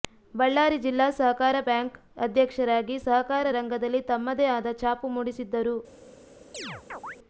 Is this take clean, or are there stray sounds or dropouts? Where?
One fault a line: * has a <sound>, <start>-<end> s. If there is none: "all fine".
* has a chirp, 6.5-7.2 s